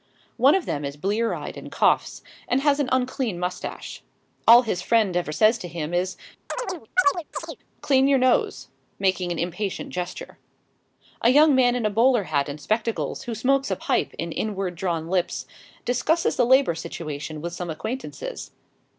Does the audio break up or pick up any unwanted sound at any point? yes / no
yes